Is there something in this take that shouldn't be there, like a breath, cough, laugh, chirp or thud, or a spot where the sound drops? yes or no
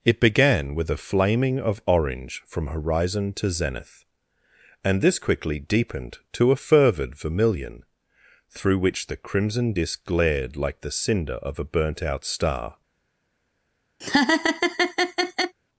yes